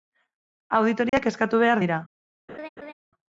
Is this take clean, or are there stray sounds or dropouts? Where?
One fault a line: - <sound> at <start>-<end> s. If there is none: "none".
- dropout at 1.1-1.1 s
- laugh at 2.5-2.9 s